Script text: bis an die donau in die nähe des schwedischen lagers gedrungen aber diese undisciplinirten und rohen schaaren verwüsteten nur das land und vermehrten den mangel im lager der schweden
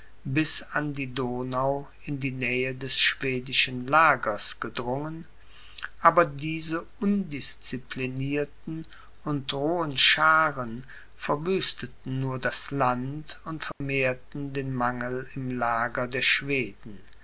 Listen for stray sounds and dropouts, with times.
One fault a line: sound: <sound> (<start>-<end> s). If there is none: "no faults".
sound: dropout (13.7-13.8 s)